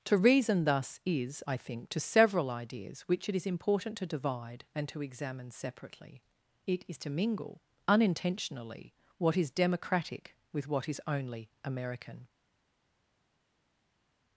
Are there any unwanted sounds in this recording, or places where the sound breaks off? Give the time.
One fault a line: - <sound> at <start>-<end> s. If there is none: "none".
none